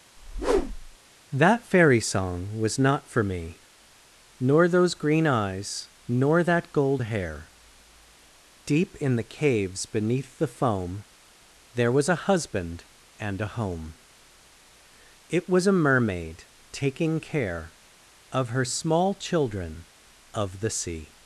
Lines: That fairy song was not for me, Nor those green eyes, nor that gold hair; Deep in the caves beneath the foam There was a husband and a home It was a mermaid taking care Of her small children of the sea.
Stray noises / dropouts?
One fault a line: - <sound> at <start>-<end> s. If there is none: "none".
- whoosh at 0.2-1.0 s